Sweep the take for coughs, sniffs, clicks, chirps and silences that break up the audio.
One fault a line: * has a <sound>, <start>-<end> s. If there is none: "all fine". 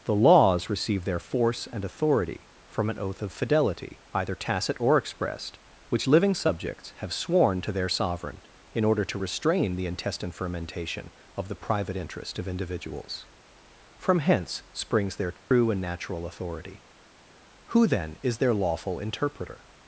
* has a dropout, 15.4-15.5 s